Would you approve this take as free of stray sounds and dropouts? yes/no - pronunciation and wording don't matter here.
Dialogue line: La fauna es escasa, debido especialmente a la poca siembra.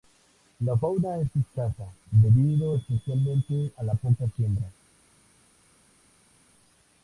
yes